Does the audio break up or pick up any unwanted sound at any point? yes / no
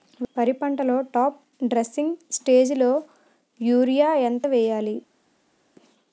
no